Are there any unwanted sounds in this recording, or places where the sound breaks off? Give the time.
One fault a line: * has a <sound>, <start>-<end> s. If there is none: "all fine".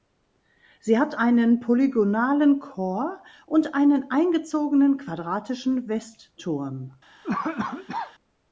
* has a cough, 7.2-8.1 s